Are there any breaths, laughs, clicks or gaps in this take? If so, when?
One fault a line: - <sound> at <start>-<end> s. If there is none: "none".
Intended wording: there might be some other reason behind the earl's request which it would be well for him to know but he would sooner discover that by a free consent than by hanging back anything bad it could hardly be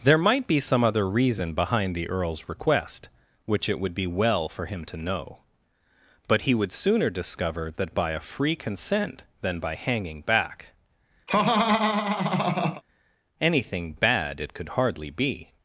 - laugh at 11.3-12.8 s